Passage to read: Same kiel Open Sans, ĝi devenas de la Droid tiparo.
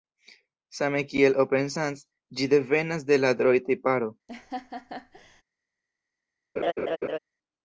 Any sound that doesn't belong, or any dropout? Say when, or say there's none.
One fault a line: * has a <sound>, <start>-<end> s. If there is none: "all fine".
* has a laugh, 4.3-5.4 s
* has a laugh, 6.6-7.2 s